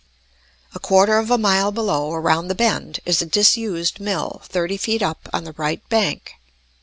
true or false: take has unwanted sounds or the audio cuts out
false